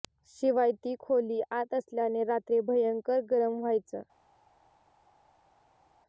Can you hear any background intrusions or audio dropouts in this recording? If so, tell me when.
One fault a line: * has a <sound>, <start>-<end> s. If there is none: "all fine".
all fine